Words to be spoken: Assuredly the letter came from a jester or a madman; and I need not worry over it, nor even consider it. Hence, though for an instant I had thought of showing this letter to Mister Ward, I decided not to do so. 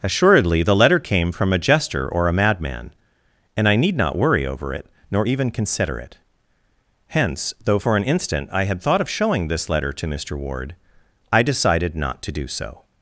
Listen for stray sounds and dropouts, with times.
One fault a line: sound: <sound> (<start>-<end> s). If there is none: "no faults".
no faults